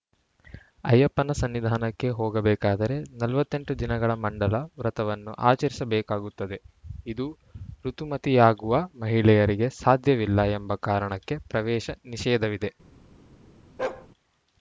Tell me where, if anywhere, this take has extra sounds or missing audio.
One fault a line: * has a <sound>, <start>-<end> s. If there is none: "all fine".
* has a bark, 13.8-14.1 s